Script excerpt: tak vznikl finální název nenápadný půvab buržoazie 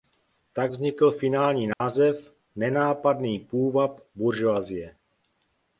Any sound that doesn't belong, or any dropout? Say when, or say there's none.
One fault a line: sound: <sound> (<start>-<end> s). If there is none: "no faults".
sound: dropout (1.7-1.8 s)